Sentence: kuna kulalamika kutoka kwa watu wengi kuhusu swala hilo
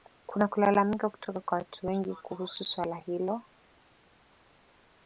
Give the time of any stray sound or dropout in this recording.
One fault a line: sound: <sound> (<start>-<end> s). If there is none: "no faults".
no faults